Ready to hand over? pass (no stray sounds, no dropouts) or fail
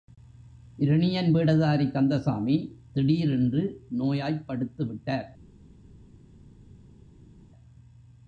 pass